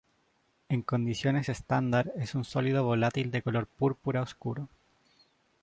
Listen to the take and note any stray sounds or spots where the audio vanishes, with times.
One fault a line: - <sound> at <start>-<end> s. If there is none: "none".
none